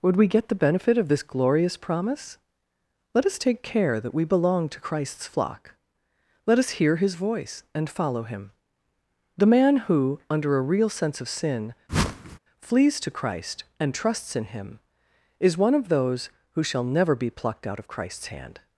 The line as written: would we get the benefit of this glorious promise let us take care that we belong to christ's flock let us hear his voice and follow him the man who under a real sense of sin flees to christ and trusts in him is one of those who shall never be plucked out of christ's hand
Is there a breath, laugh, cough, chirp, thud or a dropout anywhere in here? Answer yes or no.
yes